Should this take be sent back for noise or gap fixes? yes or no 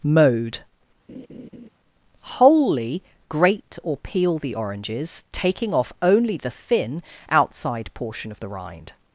yes